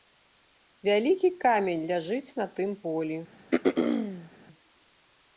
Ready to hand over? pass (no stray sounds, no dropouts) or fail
fail